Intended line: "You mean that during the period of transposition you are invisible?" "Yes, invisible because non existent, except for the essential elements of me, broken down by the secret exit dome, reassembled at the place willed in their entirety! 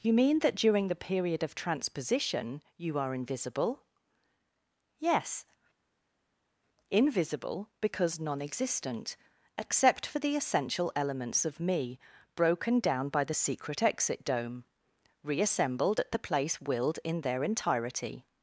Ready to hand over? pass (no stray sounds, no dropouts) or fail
pass